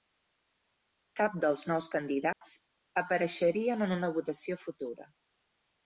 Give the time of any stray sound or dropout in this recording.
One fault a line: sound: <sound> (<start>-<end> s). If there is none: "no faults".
sound: dropout (2.3-2.4 s)